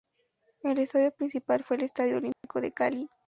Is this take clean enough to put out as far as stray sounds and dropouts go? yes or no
no